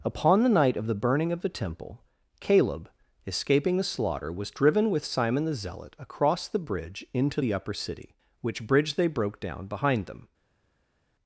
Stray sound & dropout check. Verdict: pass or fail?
pass